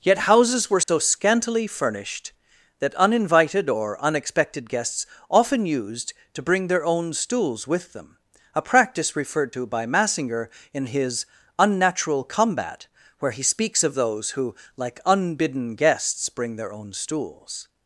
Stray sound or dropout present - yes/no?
yes